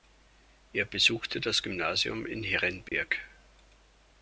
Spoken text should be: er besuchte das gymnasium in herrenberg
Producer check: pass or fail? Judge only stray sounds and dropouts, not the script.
fail